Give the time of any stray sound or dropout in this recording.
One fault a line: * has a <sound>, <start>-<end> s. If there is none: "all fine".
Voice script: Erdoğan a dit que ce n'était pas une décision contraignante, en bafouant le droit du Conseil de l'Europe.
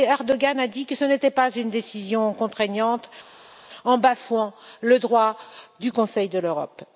all fine